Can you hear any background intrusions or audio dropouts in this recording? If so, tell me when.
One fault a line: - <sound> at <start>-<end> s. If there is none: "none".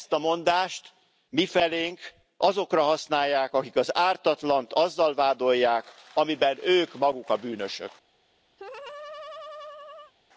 - laugh at 8.6-10.1 s